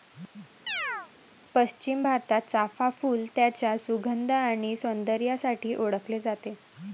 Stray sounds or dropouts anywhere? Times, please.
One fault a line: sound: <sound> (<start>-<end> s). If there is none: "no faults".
sound: chirp (0.7-1.1 s)